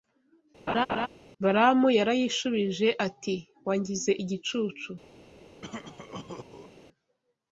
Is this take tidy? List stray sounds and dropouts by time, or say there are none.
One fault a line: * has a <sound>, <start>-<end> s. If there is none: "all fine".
* has a laugh, 0.7-1.1 s
* has a cough, 5.6-6.7 s